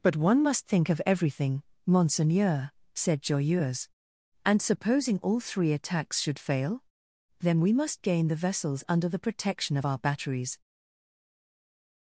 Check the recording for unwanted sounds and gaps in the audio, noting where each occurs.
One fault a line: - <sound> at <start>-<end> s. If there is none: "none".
none